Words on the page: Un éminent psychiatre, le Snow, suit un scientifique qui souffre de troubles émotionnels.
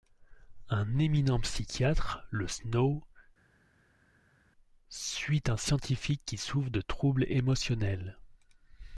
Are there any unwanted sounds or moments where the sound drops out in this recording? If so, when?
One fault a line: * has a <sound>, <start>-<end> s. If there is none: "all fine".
all fine